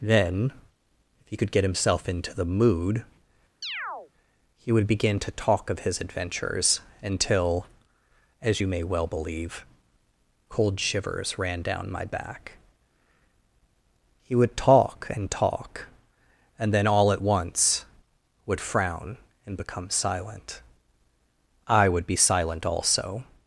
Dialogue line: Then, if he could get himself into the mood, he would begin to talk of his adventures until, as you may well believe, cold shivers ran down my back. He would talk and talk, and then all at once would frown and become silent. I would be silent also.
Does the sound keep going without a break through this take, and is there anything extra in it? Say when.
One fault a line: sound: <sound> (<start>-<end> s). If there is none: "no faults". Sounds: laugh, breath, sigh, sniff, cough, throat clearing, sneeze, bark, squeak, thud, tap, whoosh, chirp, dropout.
sound: chirp (3.6-4.1 s)